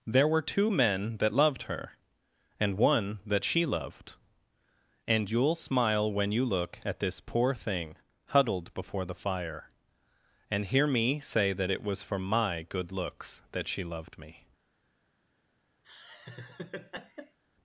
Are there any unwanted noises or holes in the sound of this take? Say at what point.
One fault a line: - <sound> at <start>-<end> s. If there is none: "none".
- laugh at 15.8-17.4 s